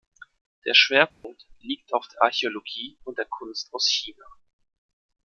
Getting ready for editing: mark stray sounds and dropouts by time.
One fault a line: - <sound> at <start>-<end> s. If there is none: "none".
- dropout at 1.1-1.2 s